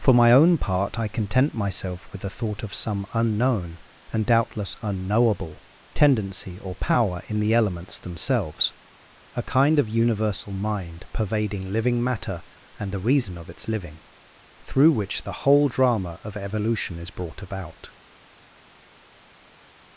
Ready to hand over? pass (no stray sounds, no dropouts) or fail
pass